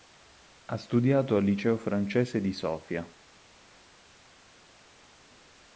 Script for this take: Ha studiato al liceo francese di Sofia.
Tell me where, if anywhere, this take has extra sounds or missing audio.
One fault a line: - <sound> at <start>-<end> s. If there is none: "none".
none